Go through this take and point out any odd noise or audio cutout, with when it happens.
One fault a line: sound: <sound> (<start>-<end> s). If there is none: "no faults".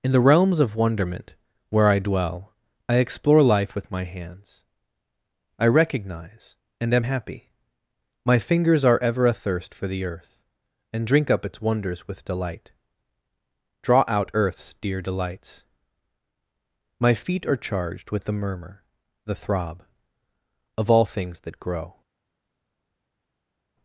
no faults